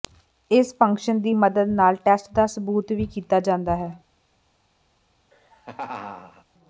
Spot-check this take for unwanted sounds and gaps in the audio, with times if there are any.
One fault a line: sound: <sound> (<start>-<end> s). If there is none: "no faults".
sound: laugh (5.3-6.4 s)